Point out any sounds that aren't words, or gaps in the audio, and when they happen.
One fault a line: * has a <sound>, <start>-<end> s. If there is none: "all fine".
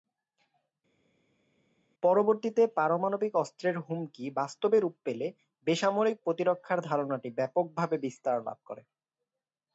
all fine